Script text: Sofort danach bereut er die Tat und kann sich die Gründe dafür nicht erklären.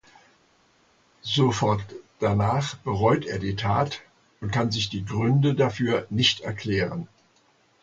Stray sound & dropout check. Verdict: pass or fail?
pass